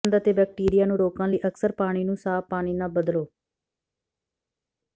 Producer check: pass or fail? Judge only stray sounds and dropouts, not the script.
pass